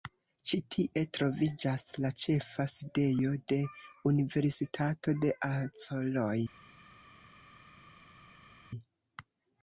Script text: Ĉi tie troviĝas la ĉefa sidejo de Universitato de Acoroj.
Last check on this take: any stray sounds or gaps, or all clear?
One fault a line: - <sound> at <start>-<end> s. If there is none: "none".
none